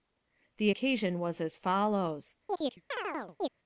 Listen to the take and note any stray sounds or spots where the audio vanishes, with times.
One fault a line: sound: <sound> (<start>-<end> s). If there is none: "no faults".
sound: chirp (2.5-3.5 s)